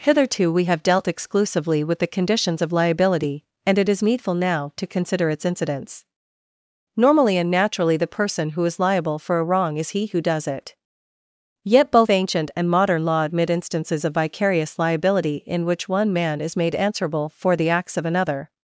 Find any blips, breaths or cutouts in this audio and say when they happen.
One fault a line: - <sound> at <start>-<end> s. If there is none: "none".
none